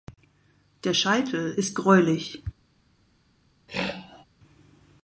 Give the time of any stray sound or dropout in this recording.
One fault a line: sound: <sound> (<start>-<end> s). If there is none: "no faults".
sound: throat clearing (3.7-4.2 s)